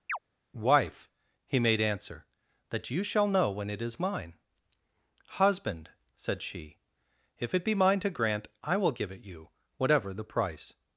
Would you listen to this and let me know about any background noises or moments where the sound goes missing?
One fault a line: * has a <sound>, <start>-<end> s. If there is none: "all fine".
* has a chirp, 0.1-0.2 s